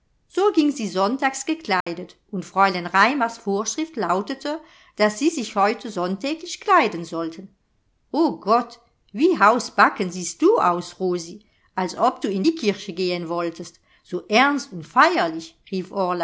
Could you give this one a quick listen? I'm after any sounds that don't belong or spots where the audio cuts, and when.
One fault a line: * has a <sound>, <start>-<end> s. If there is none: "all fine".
* has a dropout, 1.8-1.9 s